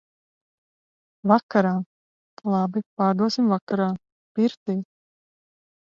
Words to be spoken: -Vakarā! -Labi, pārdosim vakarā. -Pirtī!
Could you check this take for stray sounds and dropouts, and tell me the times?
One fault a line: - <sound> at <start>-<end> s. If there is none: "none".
none